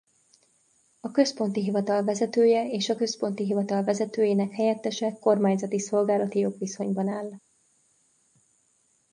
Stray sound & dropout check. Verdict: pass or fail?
pass